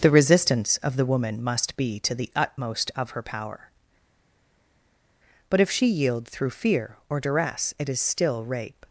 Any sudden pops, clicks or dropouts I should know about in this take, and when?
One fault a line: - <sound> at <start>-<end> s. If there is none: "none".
none